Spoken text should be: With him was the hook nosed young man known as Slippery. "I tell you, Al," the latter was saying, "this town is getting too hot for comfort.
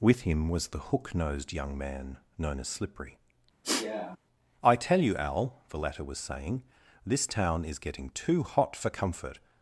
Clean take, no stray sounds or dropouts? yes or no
no